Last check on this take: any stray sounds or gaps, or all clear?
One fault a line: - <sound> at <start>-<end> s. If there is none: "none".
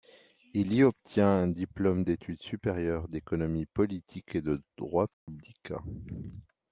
- dropout at 5.1-5.3 s